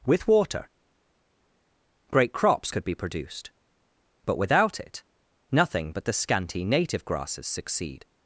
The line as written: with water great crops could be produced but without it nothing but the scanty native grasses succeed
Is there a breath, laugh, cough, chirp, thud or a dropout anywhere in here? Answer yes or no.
no